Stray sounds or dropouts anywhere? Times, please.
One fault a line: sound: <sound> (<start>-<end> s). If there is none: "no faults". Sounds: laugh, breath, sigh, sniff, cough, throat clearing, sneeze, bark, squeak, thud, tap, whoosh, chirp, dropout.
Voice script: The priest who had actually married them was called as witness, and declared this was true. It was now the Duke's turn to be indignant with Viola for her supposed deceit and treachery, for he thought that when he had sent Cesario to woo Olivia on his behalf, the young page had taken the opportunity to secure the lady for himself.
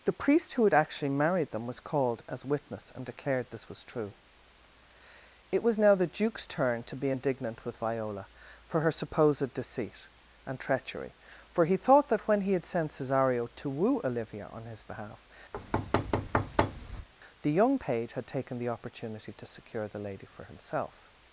sound: thud (15.5-17.1 s)